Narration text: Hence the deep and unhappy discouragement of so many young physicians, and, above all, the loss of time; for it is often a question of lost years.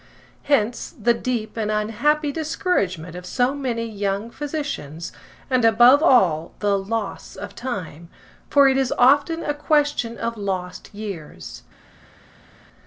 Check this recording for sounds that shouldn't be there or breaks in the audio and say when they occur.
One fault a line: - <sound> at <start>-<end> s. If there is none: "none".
none